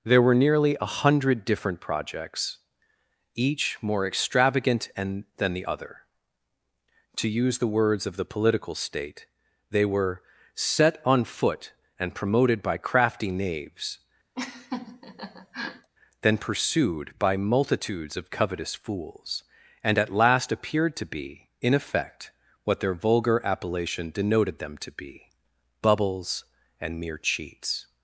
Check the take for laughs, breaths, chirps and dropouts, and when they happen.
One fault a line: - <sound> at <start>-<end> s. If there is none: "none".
- laugh at 14.3-15.9 s